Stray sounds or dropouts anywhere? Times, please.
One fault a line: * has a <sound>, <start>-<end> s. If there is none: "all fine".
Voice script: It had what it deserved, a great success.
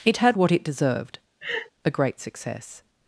* has a laugh, 1.4-1.7 s